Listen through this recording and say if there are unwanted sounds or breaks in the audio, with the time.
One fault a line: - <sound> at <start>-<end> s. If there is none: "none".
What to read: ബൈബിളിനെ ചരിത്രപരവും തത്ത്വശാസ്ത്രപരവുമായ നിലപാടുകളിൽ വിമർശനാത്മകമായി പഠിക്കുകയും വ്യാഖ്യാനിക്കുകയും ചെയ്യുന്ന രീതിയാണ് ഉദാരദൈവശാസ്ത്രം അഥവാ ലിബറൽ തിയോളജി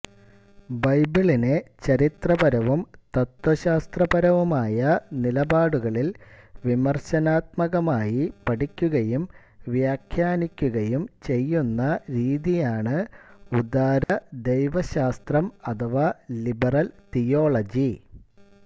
- dropout at 14.0-14.1 s